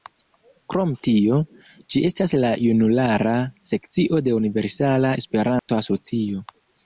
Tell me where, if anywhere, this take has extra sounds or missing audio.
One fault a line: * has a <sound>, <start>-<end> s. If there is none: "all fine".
* has a dropout, 5.6-5.7 s